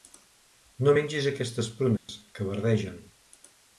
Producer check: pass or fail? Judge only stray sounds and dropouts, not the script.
fail